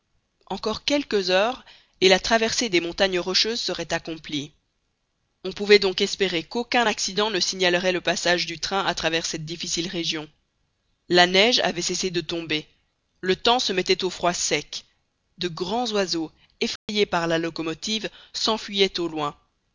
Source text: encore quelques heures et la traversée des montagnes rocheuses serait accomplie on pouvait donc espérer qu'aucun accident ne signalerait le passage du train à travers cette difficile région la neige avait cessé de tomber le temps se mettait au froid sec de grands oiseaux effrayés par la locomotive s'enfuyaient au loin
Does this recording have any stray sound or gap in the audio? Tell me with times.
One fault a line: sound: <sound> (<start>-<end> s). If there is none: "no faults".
sound: dropout (16.8-16.9 s)